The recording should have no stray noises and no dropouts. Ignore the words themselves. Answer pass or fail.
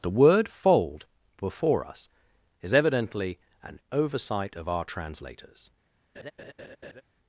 fail